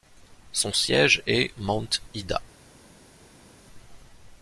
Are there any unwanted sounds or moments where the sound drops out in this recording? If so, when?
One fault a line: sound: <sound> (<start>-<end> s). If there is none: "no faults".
no faults